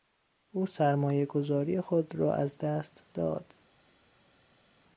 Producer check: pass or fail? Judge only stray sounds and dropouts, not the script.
pass